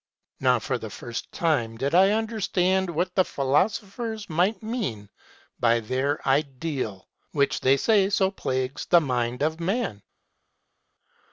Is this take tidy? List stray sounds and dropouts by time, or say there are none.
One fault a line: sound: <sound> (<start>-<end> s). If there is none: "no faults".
no faults